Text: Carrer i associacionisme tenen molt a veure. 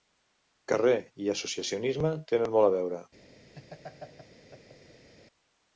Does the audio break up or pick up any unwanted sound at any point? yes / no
yes